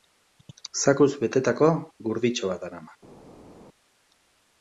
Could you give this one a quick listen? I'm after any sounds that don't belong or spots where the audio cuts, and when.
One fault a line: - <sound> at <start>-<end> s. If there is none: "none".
none